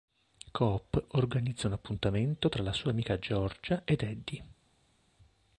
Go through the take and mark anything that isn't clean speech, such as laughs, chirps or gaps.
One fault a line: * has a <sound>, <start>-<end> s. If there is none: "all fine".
all fine